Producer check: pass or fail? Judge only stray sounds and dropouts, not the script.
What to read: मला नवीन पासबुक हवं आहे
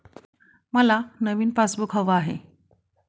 pass